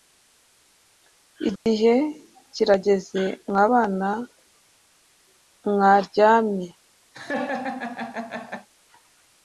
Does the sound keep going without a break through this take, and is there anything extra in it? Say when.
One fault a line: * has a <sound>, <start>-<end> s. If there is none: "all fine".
* has a dropout, 1.6-1.7 s
* has a laugh, 7.1-8.7 s